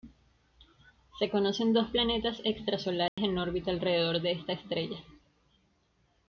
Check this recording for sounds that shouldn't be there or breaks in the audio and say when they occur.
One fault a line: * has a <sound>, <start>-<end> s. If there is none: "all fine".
* has a dropout, 3.1-3.2 s